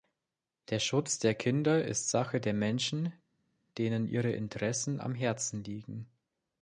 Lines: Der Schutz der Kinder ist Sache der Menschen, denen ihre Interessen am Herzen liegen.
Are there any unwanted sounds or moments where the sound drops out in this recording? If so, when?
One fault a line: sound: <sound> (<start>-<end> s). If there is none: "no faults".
no faults